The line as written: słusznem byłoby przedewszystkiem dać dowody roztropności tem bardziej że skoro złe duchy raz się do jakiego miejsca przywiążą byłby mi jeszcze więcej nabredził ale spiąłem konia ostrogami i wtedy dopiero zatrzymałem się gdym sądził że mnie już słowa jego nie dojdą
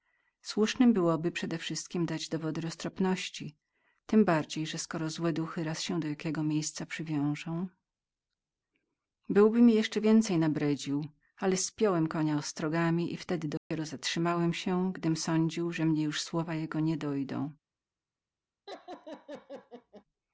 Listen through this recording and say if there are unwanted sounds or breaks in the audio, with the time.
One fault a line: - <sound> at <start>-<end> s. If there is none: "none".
- dropout at 13.6-13.7 s
- laugh at 18.7-20.0 s